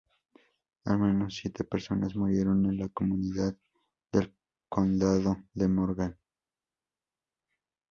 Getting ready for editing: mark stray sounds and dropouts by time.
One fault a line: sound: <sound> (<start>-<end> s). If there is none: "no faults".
no faults